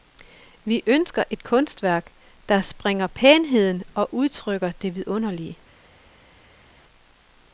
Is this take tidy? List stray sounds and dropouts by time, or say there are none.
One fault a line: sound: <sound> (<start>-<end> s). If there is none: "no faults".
no faults